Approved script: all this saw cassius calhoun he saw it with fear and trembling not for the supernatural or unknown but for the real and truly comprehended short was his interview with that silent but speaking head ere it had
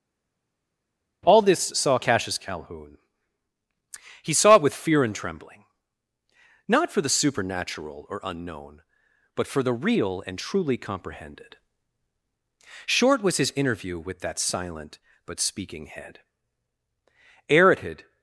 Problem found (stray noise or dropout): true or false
false